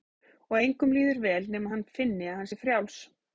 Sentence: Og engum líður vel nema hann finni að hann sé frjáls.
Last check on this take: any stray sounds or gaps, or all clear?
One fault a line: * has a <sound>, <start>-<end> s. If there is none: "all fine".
all fine